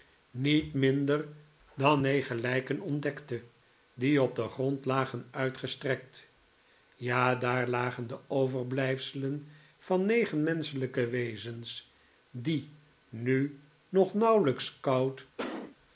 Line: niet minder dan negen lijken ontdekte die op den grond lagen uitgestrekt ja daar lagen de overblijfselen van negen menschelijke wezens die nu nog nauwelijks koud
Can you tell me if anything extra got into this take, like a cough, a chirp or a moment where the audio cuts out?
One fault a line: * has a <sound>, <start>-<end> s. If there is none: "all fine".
* has a cough, 15.4-15.8 s